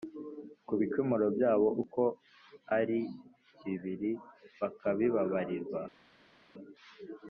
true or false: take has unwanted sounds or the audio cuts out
false